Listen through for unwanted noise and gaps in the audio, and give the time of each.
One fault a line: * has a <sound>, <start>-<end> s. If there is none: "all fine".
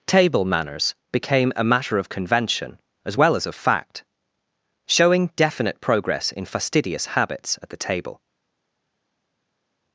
all fine